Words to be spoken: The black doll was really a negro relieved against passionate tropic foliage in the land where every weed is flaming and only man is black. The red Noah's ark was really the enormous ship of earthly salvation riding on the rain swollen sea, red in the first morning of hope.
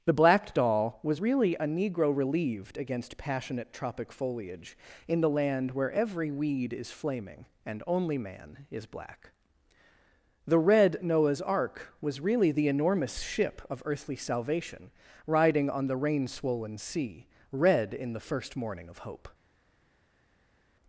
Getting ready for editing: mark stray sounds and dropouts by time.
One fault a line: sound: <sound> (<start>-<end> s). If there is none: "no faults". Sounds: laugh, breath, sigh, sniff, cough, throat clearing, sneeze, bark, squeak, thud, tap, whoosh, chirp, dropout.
no faults